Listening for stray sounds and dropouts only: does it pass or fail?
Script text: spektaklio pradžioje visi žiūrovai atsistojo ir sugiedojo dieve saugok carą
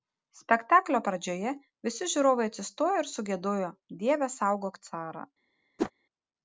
fail